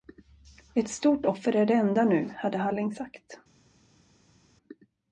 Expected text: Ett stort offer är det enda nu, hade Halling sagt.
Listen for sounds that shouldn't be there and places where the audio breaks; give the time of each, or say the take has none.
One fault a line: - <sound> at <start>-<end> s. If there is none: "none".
none